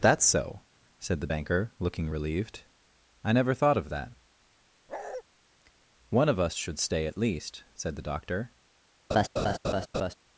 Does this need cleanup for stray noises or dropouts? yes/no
yes